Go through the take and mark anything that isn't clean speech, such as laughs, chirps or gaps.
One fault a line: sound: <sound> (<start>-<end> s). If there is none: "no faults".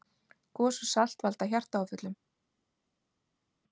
no faults